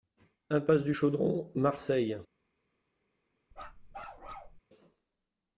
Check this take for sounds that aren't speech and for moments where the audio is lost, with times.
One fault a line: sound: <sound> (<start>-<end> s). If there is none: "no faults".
sound: bark (3.5-4.6 s)